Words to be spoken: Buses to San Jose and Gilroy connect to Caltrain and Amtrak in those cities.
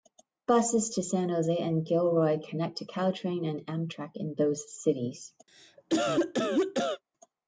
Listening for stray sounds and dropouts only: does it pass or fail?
fail